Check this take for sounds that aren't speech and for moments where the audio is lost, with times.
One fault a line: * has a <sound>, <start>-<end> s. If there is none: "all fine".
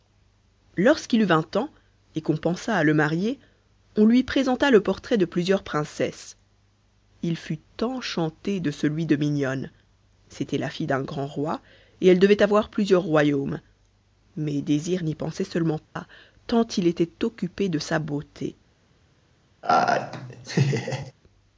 * has a dropout, 15.9-16.0 s
* has a laugh, 19.6-21.1 s